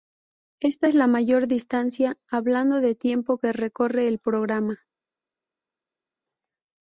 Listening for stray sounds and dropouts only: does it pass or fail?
pass